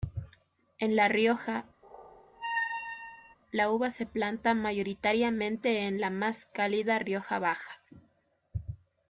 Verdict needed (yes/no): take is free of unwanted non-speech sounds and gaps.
no